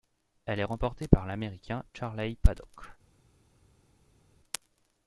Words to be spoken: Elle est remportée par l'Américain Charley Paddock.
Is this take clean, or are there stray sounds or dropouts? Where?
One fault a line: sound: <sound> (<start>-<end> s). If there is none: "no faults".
no faults